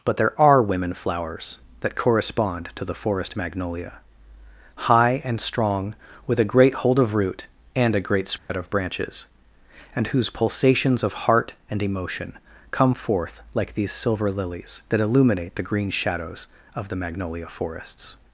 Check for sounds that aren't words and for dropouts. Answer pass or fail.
fail